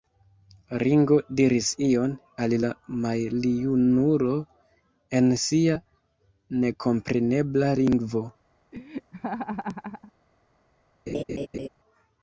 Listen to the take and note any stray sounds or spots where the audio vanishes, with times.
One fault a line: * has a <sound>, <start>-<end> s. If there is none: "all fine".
* has a laugh, 8.7-10.1 s
* has a laugh, 11.1-11.7 s